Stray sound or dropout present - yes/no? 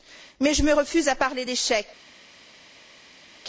no